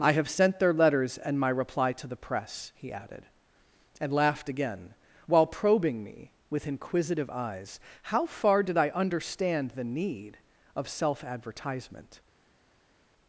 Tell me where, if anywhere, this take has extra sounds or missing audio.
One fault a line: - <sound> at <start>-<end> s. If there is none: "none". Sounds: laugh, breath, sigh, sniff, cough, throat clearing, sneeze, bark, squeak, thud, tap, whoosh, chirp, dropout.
none